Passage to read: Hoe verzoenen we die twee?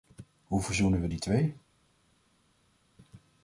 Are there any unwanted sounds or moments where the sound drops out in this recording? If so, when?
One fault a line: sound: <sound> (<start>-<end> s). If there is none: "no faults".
no faults